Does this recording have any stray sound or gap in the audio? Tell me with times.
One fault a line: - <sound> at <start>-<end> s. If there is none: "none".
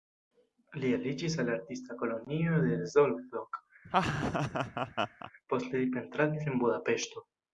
- laugh at 3.8-5.3 s